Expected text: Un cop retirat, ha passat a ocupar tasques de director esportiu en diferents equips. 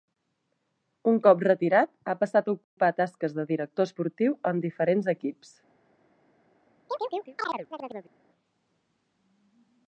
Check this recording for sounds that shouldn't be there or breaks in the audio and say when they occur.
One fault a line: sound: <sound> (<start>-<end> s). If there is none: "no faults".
sound: dropout (2.6-2.8 s)
sound: chirp (6.9-8.1 s)